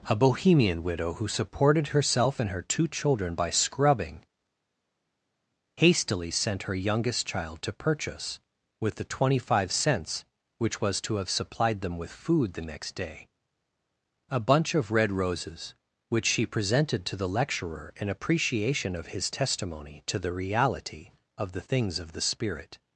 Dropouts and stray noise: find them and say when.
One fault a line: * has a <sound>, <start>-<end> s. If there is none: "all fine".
all fine